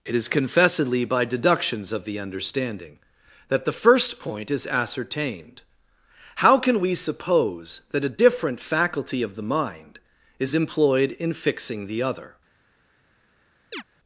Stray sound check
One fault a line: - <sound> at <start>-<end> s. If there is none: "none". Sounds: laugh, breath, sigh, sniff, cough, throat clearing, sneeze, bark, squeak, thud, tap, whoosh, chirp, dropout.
- chirp at 13.7-13.8 s